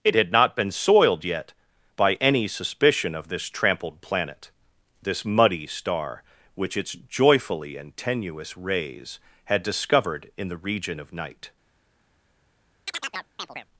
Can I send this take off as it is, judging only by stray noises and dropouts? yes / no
no